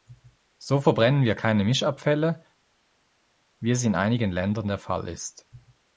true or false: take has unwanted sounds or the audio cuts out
false